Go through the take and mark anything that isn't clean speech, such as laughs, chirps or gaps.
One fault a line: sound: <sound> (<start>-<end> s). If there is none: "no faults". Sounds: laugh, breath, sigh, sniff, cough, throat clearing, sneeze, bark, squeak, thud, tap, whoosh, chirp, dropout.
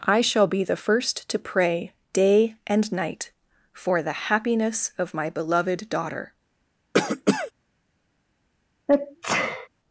sound: cough (6.9-7.5 s)
sound: sneeze (8.9-9.7 s)